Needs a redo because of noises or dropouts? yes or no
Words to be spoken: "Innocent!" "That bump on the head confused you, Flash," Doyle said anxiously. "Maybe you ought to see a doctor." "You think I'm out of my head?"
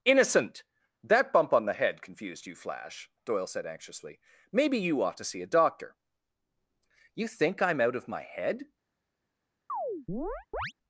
yes